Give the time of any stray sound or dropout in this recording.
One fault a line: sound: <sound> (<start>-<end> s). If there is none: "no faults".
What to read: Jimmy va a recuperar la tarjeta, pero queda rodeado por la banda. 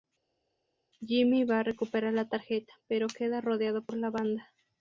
no faults